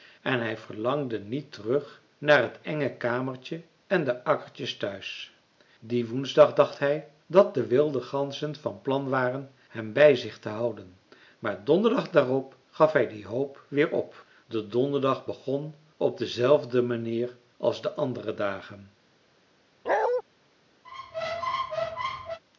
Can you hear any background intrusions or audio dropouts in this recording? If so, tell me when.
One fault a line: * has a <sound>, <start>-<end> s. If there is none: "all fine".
* has a bark, 19.9-20.2 s
* has a squeak, 20.8-22.4 s